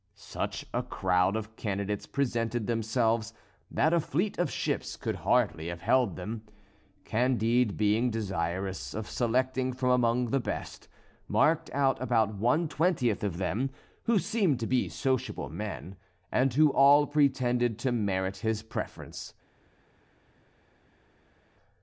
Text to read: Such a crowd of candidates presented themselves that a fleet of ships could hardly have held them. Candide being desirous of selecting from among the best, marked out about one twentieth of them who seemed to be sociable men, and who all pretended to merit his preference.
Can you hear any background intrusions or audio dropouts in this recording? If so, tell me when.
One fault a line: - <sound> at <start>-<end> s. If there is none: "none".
none